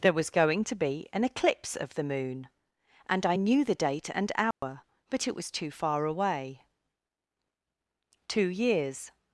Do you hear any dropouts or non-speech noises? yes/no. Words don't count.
yes